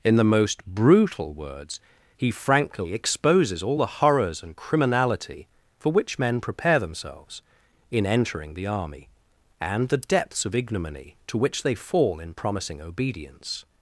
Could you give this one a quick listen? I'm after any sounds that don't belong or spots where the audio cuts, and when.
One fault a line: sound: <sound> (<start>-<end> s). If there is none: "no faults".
no faults